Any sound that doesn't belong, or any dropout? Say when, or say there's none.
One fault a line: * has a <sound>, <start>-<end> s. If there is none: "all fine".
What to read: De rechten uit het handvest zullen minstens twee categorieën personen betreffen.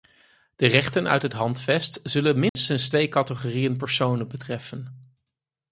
* has a dropout, 2.5-2.6 s